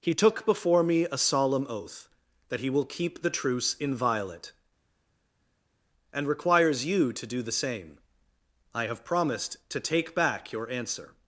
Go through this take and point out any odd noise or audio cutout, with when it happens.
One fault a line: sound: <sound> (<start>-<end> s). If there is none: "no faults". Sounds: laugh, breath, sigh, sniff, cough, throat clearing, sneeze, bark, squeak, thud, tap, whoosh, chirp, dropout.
no faults